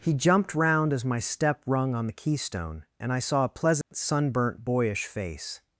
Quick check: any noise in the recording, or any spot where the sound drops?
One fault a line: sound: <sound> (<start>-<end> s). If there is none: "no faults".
sound: dropout (3.8-3.9 s)